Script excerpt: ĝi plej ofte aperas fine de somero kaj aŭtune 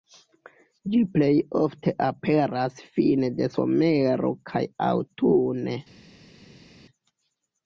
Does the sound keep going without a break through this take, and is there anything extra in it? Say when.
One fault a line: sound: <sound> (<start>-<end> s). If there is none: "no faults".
no faults